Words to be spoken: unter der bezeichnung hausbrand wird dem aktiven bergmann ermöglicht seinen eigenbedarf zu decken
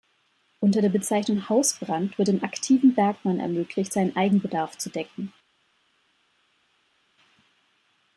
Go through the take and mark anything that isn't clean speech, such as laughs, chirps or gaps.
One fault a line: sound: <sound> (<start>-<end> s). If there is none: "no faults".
no faults